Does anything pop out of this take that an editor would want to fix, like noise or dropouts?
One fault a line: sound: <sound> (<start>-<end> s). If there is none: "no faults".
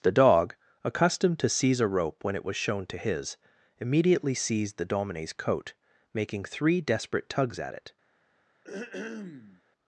sound: throat clearing (8.6-9.6 s)